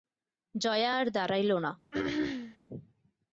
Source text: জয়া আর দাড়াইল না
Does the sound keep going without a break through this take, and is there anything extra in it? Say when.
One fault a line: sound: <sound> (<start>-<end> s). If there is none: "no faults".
sound: throat clearing (1.9-2.6 s)